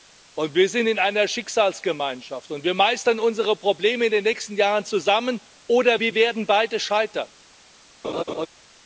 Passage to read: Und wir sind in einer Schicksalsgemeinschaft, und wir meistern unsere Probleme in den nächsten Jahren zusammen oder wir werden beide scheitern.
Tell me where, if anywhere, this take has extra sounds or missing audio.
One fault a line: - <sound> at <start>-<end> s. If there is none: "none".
- laugh at 8.0-8.5 s